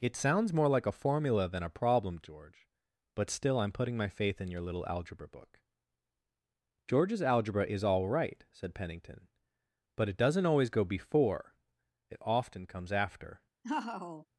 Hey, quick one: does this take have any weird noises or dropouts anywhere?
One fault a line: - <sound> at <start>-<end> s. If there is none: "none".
- laugh at 13.6-14.3 s